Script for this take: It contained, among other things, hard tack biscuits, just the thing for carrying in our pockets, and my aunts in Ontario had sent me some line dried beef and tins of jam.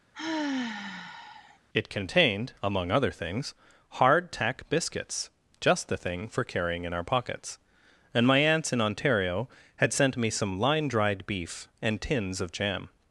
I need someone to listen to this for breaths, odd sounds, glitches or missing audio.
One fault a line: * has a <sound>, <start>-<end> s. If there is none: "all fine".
* has a sigh, 0.1-1.6 s